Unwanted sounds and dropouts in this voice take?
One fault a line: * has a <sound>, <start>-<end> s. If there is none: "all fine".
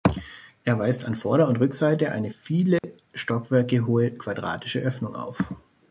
* has a dropout, 2.8-2.8 s